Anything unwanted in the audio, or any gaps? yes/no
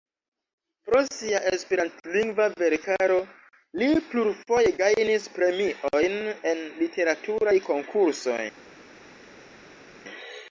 no